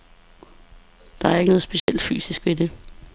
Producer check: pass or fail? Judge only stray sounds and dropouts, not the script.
fail